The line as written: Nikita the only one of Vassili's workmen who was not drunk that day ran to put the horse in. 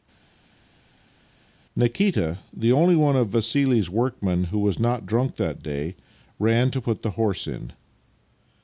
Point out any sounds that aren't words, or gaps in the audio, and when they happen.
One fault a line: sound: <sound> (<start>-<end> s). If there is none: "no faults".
no faults